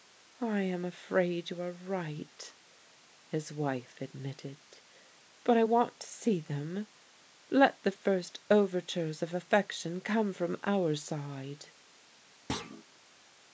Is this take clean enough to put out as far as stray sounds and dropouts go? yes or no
no